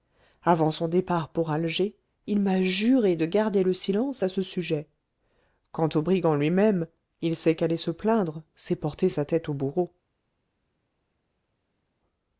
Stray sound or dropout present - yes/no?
no